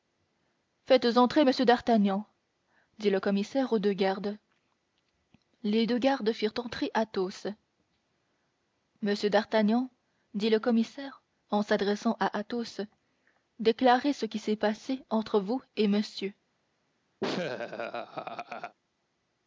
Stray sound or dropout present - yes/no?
yes